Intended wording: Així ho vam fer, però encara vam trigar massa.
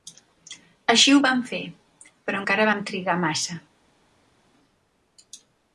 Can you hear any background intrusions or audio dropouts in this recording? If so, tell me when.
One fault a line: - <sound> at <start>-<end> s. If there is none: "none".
none